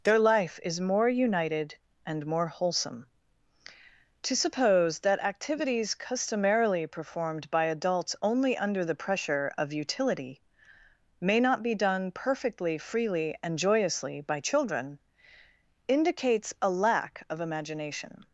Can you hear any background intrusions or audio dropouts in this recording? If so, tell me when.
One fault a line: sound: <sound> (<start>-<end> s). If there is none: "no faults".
no faults